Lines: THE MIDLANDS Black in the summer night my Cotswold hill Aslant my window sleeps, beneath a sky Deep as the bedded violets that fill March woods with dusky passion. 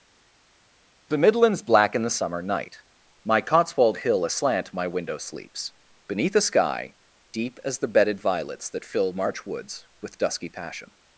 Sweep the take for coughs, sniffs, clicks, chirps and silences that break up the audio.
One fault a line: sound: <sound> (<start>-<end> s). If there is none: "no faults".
no faults